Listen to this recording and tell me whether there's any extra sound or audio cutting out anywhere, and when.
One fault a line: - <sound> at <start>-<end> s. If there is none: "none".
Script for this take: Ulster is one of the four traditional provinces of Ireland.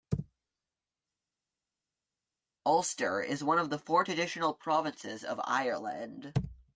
none